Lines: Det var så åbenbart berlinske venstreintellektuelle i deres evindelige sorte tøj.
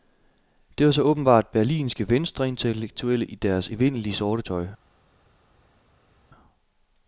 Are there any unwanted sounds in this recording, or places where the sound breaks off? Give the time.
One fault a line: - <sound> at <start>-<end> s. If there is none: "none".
none